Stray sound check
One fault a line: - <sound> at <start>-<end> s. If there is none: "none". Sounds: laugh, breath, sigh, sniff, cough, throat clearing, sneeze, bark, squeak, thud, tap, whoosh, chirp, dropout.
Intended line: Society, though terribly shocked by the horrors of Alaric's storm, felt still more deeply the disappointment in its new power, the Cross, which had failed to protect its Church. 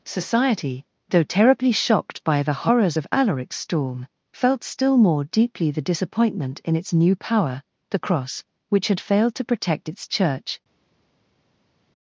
none